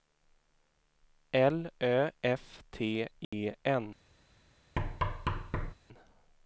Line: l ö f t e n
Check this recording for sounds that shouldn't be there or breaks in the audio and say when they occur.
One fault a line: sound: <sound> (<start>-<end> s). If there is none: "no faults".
sound: dropout (3.2-3.3 s)
sound: thud (4.8-5.7 s)